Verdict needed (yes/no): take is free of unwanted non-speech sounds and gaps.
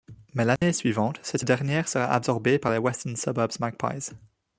no